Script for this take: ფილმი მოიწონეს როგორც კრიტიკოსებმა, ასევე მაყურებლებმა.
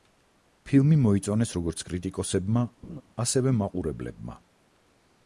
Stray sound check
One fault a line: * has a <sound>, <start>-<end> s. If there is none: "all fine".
* has a laugh, 2.8-3.0 s